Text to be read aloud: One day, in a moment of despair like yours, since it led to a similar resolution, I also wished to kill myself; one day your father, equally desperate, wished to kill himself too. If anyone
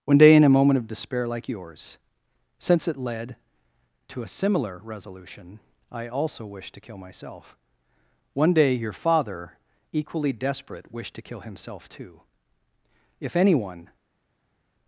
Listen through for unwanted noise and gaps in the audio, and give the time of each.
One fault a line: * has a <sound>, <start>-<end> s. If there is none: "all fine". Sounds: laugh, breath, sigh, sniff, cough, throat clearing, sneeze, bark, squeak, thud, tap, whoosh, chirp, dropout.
all fine